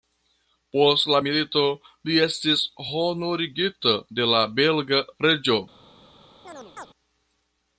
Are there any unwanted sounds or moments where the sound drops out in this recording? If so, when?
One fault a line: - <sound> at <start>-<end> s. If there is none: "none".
- chirp at 6.4-6.9 s